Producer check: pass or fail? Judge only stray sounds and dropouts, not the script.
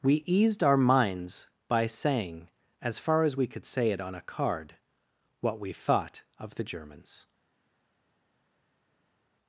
pass